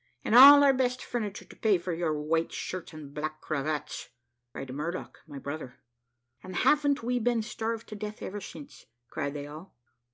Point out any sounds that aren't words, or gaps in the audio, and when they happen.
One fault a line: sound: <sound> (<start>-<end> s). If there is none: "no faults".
no faults